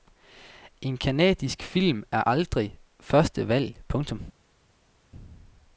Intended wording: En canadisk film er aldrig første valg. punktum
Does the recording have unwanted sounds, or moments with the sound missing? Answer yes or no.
no